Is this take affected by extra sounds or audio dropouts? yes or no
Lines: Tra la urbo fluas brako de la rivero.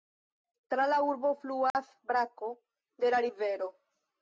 yes